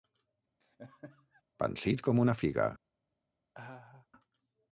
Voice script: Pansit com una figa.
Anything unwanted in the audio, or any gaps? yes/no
yes